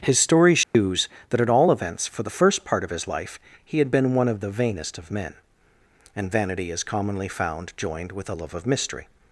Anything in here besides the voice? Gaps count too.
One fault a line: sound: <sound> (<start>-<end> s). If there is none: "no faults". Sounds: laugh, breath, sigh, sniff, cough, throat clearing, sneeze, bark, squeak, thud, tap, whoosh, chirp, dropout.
sound: dropout (0.6-0.7 s)